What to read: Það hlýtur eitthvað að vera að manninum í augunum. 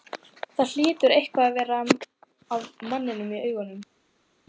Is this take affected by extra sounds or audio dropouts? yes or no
no